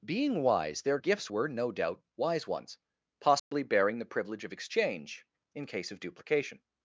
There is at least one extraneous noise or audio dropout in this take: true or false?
true